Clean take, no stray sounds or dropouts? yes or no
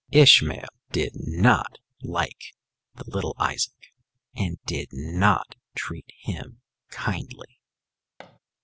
no